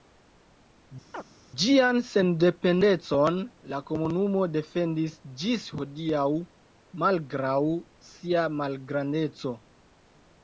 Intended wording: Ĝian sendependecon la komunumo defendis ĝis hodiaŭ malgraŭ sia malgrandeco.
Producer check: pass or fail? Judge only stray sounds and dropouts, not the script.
fail